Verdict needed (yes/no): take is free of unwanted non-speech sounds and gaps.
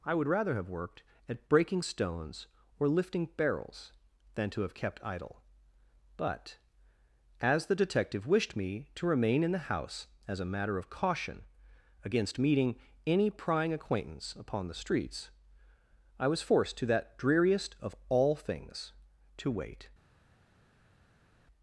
yes